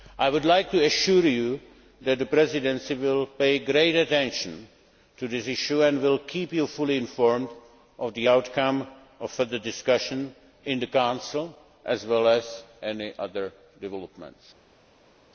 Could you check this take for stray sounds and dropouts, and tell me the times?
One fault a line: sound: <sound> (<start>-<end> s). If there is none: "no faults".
no faults